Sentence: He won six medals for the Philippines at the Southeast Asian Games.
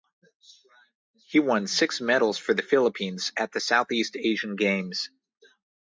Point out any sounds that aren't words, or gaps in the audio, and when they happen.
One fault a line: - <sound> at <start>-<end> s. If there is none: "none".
none